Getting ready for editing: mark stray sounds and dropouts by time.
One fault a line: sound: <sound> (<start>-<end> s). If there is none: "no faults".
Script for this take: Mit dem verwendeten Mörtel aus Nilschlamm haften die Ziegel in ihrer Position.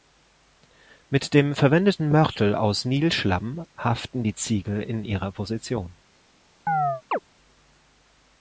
sound: chirp (6.7-7.2 s)